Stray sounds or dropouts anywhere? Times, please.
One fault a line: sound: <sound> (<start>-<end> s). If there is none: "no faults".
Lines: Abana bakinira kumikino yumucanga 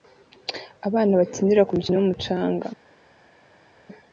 no faults